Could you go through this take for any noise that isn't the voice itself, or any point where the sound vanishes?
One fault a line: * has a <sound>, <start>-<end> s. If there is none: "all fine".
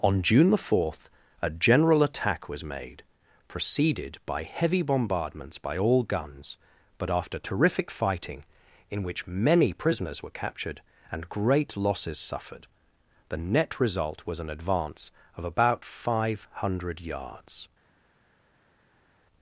all fine